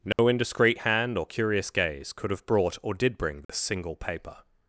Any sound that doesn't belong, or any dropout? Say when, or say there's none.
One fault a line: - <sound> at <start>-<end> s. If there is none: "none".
- dropout at 0.1-0.2 s
- dropout at 3.4-3.5 s